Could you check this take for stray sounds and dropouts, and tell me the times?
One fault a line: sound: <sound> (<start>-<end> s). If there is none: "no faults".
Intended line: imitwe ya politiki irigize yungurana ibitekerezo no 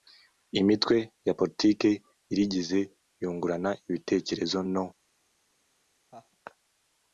sound: laugh (6.1-6.3 s)